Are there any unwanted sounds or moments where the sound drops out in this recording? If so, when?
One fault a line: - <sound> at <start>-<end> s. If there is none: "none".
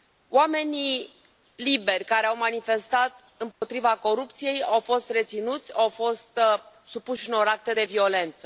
- dropout at 3.5-3.6 s